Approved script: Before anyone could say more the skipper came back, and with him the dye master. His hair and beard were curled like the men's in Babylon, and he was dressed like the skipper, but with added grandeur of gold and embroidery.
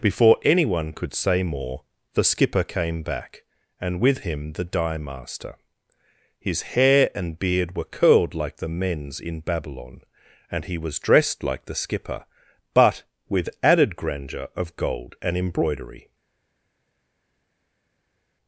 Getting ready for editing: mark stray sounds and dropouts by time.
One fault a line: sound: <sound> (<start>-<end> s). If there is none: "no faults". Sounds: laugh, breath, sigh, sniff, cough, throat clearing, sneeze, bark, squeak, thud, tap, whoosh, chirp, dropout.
no faults